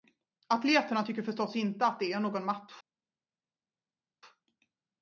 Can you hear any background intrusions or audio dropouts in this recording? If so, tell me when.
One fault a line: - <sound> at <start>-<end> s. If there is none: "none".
none